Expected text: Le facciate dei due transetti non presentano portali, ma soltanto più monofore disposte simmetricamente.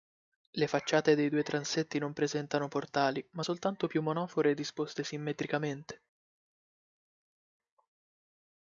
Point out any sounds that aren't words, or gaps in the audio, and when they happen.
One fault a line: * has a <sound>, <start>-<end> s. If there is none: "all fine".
all fine